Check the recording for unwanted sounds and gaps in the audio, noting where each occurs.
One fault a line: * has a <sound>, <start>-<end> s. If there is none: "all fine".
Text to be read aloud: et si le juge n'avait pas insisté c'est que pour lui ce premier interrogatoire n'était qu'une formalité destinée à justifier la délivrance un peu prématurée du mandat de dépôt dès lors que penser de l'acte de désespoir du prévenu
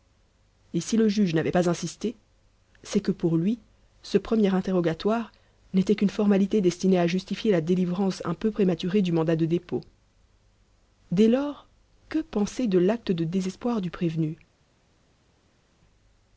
all fine